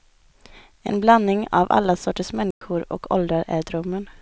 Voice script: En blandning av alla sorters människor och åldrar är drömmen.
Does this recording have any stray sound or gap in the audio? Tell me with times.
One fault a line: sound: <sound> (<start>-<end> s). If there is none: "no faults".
sound: dropout (2.5-2.6 s)